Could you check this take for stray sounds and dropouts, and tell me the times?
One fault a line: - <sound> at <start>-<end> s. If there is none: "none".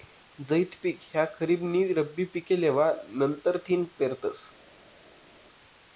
none